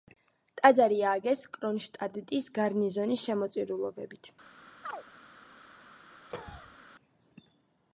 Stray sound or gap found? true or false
true